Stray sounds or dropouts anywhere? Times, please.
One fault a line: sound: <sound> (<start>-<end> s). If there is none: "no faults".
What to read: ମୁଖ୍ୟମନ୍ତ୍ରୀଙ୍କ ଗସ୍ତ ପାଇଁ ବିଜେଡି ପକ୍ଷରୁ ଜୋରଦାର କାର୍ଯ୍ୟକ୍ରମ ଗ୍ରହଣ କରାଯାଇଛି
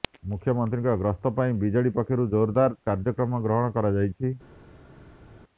no faults